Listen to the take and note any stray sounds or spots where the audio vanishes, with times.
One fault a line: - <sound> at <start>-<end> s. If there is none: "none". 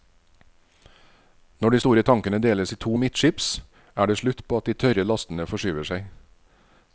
none